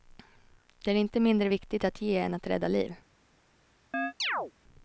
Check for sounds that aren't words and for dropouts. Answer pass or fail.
fail